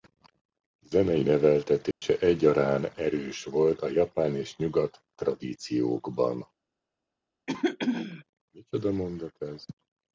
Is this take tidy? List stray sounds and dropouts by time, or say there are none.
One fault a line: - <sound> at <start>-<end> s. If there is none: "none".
- dropout at 1.9-2.0 s
- throat clearing at 7.5-8.2 s